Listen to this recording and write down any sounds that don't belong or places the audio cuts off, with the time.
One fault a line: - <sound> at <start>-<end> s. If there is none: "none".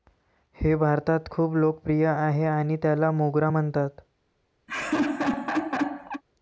- laugh at 4.7-6.2 s